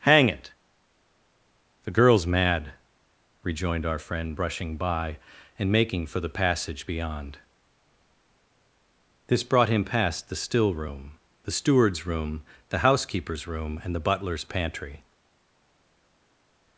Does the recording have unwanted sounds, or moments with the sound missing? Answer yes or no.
no